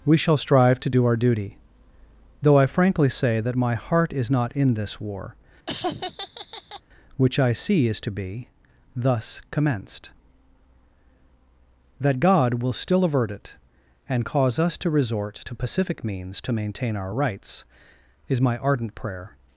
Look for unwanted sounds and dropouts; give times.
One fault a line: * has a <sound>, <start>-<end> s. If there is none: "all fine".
* has a laugh, 5.7-6.8 s